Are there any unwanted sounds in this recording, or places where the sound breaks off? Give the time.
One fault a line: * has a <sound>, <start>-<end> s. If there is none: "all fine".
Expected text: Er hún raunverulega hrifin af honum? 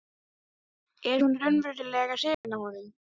* has a dropout, 2.3-2.4 s